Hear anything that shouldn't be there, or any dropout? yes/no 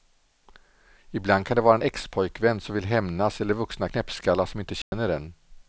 yes